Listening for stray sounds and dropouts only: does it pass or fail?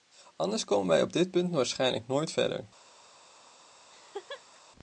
fail